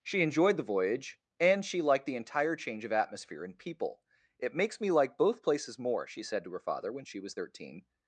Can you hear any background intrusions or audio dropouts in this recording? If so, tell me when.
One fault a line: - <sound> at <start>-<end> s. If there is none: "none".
none